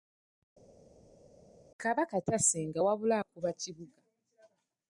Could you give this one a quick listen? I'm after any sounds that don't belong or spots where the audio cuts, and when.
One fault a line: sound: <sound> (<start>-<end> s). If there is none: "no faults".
no faults